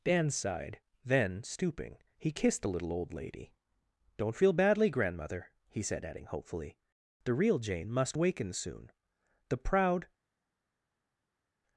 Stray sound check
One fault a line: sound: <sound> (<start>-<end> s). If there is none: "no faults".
no faults